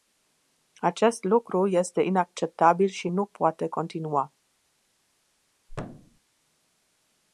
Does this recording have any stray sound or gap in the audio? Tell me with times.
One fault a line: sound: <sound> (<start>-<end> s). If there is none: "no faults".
sound: thud (5.7-6.2 s)